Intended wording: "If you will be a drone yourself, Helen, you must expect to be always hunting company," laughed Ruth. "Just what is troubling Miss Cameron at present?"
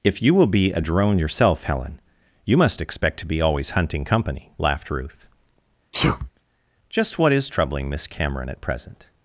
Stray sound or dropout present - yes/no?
yes